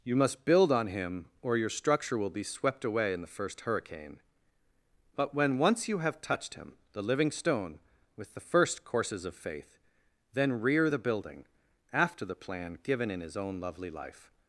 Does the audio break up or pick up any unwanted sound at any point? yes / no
no